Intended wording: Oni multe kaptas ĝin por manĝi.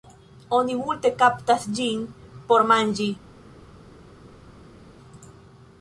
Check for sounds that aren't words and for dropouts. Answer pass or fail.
pass